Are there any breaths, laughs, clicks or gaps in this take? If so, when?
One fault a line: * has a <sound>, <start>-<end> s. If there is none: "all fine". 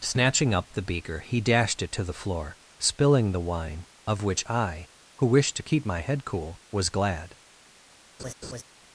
* has a laugh, 8.2-8.6 s